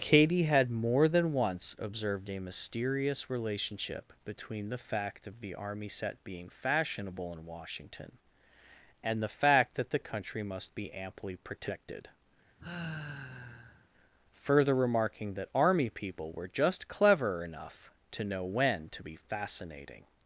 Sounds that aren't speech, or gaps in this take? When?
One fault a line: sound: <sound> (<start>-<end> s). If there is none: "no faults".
sound: sigh (12.6-13.9 s)